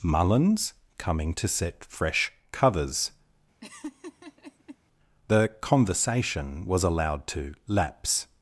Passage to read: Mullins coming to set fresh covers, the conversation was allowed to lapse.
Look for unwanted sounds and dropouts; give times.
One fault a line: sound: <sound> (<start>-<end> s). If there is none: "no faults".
sound: laugh (3.6-4.8 s)